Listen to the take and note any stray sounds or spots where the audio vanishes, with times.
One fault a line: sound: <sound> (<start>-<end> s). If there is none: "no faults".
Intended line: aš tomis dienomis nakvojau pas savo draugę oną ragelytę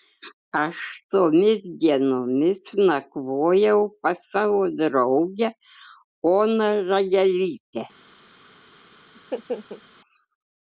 sound: laugh (9.1-9.8 s)